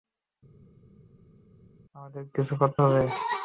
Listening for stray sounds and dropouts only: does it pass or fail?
pass